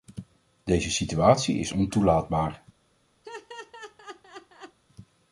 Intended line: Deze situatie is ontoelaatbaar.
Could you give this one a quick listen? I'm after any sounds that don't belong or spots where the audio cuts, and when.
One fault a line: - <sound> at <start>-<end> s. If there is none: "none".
- laugh at 3.2-4.8 s